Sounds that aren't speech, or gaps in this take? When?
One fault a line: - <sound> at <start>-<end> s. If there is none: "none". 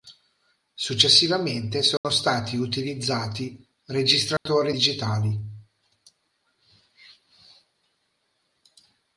- dropout at 2.0-2.0 s
- dropout at 4.4-4.5 s